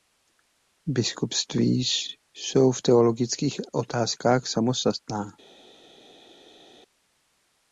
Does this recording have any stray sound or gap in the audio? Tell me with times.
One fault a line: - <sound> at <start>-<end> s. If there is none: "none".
none